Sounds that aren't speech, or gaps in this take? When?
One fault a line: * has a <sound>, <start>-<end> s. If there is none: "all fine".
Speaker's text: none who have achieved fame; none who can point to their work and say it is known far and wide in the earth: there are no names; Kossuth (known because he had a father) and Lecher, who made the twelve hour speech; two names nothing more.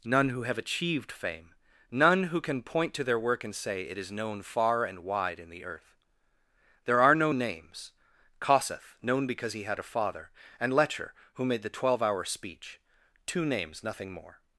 all fine